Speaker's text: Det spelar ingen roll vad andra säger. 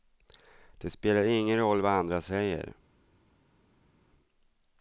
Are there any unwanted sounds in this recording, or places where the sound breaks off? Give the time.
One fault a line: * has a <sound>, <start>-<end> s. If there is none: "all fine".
all fine